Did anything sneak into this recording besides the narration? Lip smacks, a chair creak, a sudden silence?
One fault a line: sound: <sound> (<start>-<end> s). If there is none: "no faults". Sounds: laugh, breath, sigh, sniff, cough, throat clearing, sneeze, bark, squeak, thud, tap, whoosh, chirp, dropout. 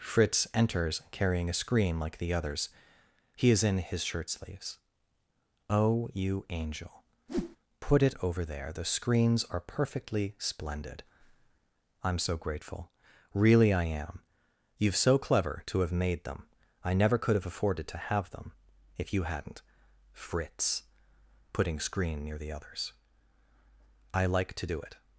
sound: whoosh (7.3-7.6 s)